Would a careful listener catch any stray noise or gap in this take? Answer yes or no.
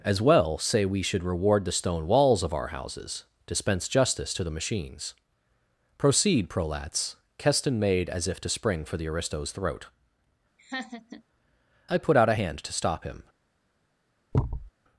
yes